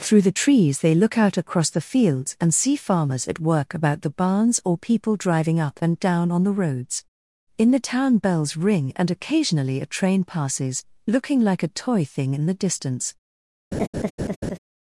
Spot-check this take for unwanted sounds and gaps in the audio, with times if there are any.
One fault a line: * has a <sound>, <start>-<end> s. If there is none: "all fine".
* has a laugh, 13.7-14.6 s